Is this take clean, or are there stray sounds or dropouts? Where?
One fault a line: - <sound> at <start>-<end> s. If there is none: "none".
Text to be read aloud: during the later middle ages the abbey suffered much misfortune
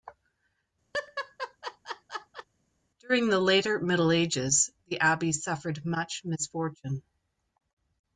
- laugh at 0.9-2.5 s